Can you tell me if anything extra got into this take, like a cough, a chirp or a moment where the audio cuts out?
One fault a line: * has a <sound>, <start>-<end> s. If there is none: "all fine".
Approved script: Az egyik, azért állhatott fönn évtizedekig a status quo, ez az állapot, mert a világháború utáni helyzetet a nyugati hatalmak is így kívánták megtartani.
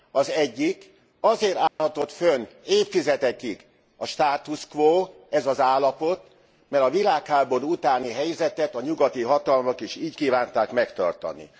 * has a dropout, 1.7-1.8 s